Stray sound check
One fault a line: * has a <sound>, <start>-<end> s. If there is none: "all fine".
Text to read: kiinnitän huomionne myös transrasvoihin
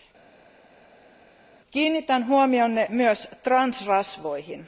all fine